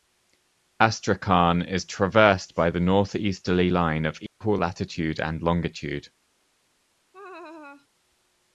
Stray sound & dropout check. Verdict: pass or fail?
fail